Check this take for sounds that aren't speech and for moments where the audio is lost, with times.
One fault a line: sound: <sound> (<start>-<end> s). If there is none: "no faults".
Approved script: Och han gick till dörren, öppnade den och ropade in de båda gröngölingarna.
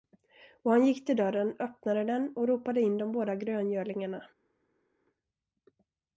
no faults